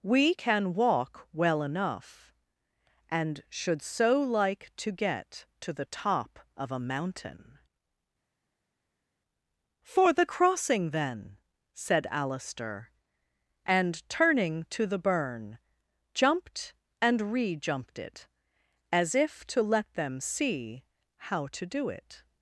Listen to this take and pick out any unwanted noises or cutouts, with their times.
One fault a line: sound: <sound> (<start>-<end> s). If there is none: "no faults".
no faults